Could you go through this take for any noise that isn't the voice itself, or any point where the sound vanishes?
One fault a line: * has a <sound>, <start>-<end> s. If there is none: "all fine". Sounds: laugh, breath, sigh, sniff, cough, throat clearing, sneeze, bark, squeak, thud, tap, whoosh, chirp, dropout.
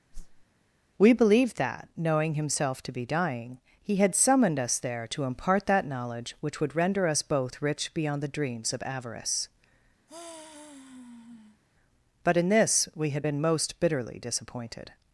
* has a whoosh, 0.1-0.5 s
* has a sigh, 10.1-11.6 s